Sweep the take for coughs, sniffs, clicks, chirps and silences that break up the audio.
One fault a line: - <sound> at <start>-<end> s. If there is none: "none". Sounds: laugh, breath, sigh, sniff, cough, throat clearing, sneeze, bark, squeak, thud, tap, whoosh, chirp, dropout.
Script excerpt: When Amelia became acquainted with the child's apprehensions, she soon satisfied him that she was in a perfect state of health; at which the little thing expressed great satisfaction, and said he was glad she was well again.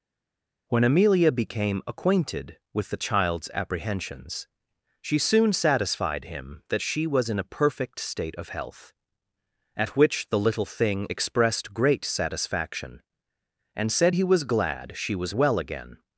none